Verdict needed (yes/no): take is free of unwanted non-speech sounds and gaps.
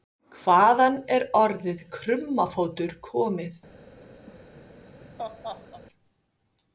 no